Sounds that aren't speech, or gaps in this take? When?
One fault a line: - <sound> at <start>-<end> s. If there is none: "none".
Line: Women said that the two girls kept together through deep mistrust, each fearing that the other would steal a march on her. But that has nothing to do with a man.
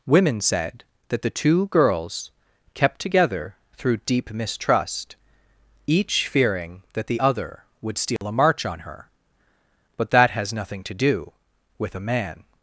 - dropout at 8.2-8.2 s